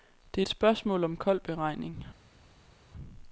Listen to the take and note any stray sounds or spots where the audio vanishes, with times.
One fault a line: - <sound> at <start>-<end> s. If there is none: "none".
none